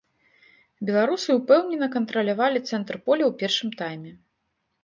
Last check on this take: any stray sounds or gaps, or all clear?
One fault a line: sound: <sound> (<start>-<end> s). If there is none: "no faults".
no faults